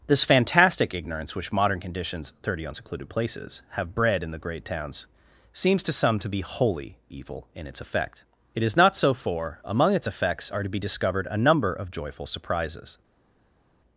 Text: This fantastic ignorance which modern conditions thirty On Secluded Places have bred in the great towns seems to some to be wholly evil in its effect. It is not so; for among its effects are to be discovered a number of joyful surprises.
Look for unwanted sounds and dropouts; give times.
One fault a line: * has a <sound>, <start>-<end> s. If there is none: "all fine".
all fine